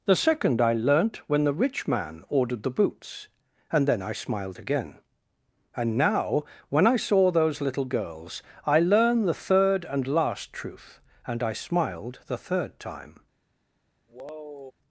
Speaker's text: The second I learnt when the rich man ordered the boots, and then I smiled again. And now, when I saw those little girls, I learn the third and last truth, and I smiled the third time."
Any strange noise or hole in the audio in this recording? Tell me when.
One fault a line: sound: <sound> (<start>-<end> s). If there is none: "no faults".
sound: sigh (14.1-14.7 s)